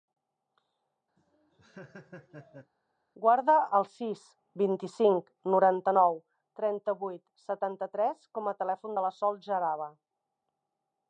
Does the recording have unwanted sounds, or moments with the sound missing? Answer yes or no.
yes